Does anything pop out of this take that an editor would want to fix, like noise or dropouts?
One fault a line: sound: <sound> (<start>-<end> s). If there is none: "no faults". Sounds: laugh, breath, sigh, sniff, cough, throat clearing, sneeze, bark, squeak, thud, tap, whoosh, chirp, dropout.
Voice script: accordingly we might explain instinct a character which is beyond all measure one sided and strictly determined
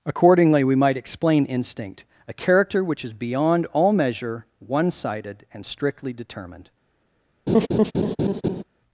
sound: laugh (7.5-8.6 s)